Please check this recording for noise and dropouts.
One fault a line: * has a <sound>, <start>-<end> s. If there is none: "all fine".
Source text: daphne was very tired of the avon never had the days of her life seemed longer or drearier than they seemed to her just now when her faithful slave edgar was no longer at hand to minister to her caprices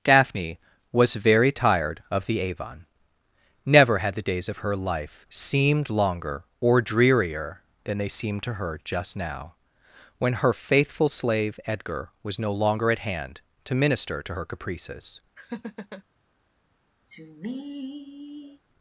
* has a laugh, 15.4-16.0 s
* has a sigh, 17.1-18.6 s